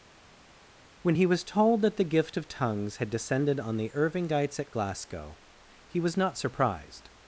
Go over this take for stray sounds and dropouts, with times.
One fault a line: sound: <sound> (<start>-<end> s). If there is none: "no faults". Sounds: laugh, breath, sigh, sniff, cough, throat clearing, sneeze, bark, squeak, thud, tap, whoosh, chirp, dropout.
no faults